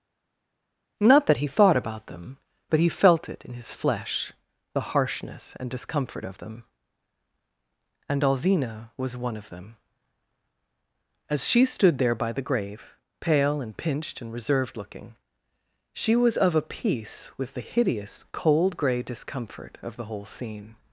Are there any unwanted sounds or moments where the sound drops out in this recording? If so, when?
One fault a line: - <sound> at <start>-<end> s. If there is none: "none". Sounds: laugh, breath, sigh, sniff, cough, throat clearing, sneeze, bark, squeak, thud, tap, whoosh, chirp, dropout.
none